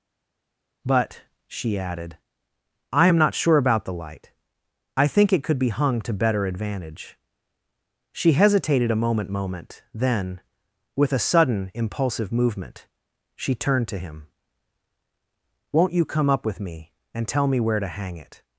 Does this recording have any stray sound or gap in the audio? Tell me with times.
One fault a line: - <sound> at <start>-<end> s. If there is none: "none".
none